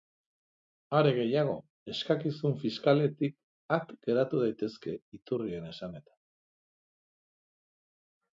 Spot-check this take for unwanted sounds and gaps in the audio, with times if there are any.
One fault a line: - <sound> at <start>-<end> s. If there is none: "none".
none